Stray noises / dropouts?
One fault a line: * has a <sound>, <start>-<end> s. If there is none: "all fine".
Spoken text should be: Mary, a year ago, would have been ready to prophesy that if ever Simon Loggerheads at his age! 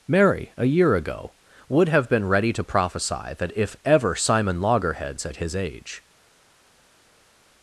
all fine